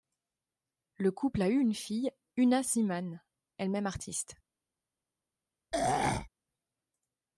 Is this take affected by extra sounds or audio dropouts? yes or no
yes